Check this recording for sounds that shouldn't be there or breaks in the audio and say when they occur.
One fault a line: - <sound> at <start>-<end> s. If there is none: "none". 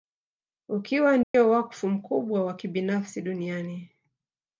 - dropout at 1.2-1.3 s